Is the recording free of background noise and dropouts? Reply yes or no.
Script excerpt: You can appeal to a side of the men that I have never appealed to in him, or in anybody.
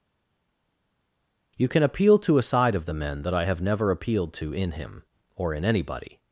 yes